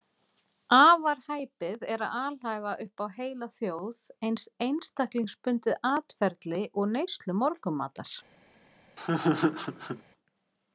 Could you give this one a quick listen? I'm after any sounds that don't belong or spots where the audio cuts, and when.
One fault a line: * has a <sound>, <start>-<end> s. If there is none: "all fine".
* has a laugh, 9.0-10.0 s